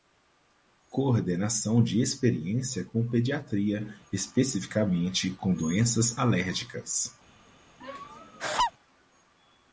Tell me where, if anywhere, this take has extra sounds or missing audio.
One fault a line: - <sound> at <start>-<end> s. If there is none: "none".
- laugh at 7.8-8.7 s